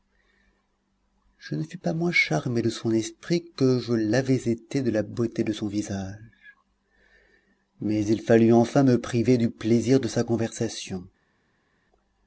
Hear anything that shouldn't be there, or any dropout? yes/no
no